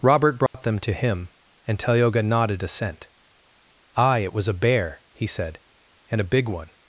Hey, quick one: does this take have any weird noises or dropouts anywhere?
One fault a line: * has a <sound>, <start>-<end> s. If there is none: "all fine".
* has a dropout, 0.5-0.5 s